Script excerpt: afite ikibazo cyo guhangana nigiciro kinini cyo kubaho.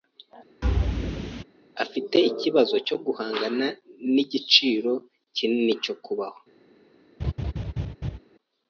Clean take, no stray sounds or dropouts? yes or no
no